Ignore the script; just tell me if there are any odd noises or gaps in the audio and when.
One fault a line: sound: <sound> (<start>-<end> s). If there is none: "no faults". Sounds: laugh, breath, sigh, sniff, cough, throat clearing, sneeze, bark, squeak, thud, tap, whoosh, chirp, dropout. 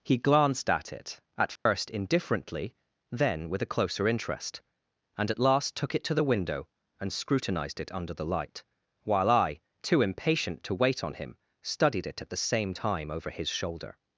sound: dropout (1.6-1.7 s)